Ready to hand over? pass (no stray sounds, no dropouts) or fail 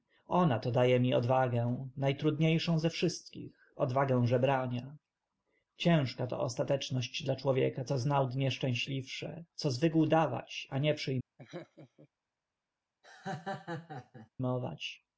fail